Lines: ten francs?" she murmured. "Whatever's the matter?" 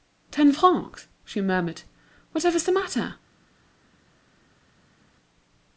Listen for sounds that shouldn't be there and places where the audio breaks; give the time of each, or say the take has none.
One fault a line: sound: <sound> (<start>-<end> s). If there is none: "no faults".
no faults